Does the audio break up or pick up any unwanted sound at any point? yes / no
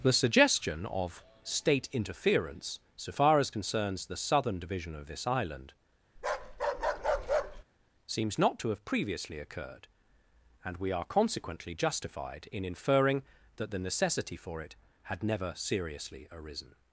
yes